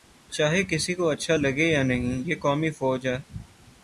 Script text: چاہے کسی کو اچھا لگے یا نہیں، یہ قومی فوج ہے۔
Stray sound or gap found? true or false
false